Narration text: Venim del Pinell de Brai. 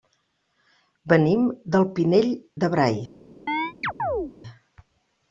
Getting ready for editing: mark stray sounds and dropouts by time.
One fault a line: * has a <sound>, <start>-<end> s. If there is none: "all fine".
* has a chirp, 3.5-4.3 s